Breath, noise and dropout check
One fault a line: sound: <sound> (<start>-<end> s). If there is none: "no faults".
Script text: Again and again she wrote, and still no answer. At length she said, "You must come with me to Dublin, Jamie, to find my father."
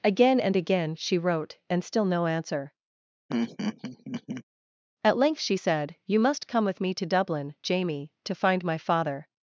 sound: laugh (3.3-4.4 s)